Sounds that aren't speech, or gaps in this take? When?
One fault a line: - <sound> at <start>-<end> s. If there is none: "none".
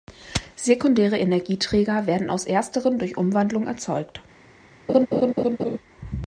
- laugh at 4.9-5.8 s